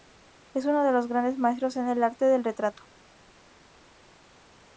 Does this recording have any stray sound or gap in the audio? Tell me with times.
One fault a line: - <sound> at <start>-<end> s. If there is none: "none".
none